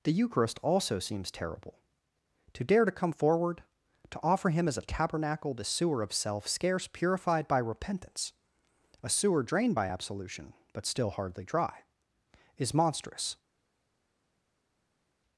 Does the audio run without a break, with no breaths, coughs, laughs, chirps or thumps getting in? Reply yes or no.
yes